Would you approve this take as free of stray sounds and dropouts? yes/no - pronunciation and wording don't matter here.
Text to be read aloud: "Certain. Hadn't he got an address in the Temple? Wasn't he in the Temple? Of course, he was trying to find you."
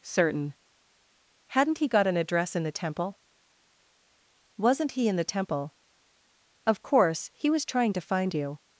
yes